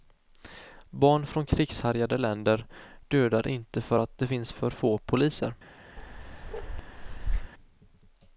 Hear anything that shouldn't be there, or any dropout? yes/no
yes